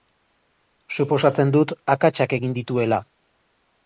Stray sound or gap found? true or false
false